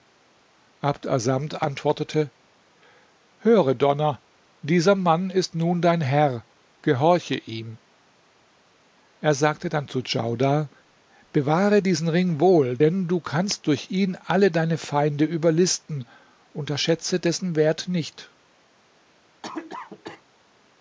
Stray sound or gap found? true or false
true